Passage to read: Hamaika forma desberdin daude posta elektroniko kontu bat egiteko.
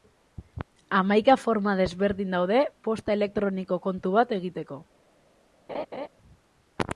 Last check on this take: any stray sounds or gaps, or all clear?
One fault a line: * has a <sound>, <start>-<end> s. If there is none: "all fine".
* has a laugh, 5.7-6.1 s